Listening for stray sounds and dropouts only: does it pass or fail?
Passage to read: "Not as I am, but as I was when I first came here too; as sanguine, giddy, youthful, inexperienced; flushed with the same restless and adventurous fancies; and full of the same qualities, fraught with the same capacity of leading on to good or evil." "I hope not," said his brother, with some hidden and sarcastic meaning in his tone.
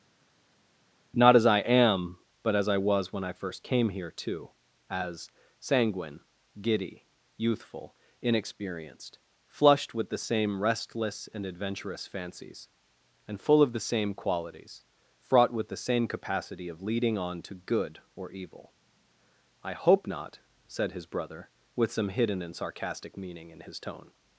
pass